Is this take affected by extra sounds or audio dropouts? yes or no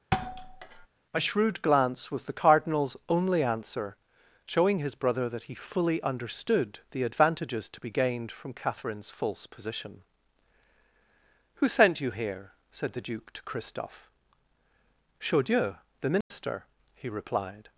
yes